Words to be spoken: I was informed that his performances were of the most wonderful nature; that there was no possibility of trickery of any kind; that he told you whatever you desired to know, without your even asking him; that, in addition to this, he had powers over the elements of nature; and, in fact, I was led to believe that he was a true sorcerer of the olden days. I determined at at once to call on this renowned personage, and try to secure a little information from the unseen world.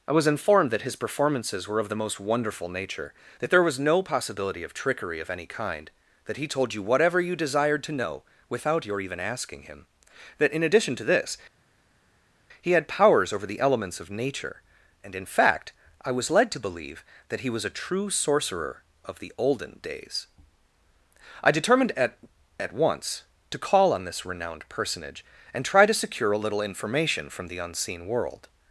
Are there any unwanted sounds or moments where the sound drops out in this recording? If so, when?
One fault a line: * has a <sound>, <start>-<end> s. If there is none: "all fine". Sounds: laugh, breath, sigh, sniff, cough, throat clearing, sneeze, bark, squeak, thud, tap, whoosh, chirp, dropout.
all fine